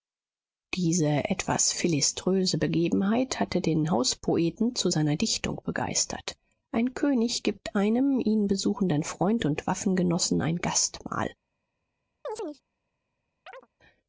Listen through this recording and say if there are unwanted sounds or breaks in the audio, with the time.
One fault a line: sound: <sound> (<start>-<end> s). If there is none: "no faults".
sound: chirp (12.2-12.6 s)
sound: chirp (13.5-13.7 s)